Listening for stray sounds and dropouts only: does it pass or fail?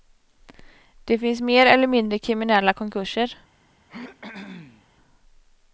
fail